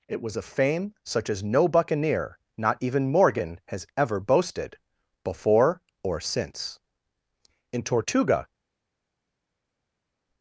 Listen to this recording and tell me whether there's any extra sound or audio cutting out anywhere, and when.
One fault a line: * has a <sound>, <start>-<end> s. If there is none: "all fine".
all fine